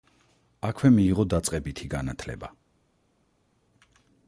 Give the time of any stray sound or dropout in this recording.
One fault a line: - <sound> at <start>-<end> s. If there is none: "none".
none